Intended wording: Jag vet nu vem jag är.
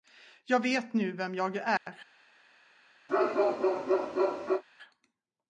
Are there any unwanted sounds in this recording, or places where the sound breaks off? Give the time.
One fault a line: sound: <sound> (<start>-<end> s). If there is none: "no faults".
sound: dropout (1.8-1.9 s)
sound: bark (3.1-4.6 s)